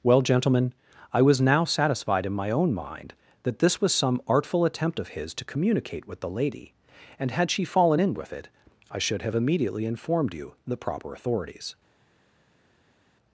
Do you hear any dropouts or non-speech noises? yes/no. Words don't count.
no